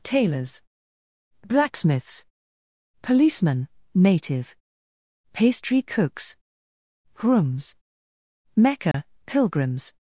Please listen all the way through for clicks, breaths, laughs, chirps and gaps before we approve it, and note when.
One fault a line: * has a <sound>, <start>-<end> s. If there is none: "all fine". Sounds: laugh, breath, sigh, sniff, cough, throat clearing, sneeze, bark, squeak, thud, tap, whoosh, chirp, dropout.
* has a dropout, 8.9-8.9 s